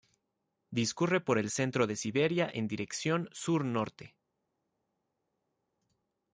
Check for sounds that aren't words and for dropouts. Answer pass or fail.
pass